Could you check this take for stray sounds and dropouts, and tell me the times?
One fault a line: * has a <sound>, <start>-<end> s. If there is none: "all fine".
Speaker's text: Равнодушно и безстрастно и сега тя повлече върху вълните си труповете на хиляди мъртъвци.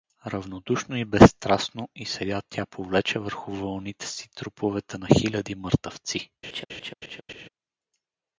* has a laugh, 6.4-7.5 s